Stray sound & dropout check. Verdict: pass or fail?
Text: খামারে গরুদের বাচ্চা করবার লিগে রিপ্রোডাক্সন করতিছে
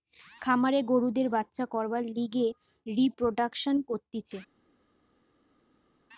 pass